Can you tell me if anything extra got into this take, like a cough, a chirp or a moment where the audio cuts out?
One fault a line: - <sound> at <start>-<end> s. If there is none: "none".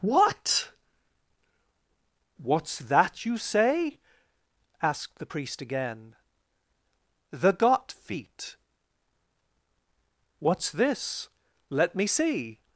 none